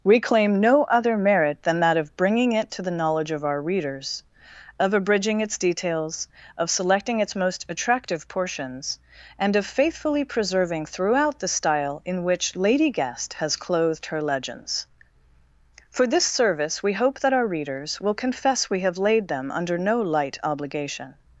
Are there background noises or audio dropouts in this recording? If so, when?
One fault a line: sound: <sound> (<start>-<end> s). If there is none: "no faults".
no faults